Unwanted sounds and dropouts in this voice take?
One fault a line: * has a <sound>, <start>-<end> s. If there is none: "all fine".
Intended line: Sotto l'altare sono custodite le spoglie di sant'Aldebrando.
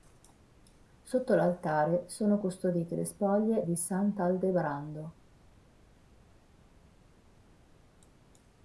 all fine